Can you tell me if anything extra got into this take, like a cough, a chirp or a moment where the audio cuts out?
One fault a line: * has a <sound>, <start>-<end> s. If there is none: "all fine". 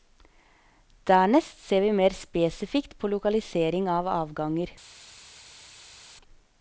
all fine